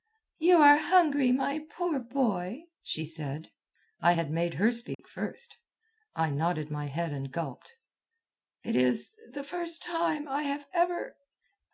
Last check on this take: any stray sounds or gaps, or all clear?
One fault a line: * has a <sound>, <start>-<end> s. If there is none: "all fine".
* has a dropout, 4.9-5.0 s